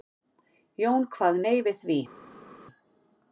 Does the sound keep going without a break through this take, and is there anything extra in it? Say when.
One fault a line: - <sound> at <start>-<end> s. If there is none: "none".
none